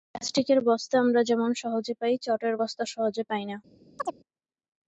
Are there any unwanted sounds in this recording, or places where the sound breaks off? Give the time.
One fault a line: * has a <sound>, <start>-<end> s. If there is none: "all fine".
* has a chirp, 4.0-4.2 s